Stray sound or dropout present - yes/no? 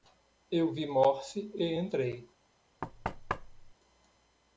yes